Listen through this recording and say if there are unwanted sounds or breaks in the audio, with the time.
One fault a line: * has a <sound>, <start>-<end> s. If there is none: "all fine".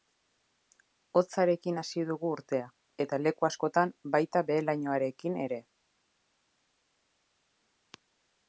all fine